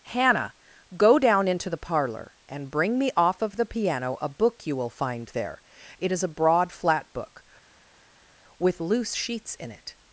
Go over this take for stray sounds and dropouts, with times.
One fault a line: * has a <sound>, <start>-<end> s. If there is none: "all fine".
all fine